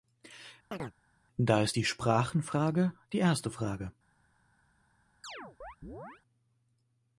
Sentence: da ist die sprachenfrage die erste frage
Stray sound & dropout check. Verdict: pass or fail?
fail